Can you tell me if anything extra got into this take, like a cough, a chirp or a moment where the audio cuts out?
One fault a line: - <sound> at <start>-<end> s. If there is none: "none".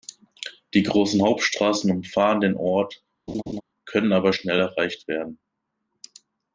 - laugh at 3.3-3.6 s